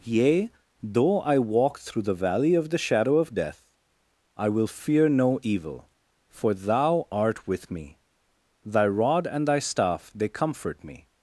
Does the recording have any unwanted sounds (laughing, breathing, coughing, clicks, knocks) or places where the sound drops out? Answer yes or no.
no